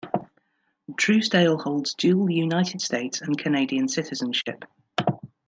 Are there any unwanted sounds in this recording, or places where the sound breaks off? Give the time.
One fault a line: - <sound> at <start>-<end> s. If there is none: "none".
none